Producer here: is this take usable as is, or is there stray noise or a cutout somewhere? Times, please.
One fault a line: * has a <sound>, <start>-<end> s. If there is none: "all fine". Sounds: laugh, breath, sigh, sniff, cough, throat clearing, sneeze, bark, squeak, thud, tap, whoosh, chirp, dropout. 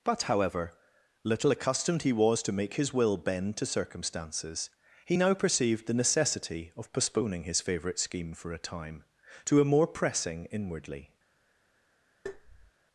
* has a tap, 12.3-12.7 s